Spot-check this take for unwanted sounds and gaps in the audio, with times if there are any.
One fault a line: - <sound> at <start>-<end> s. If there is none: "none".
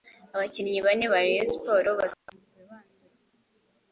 none